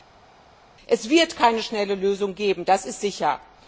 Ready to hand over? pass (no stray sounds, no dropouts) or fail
pass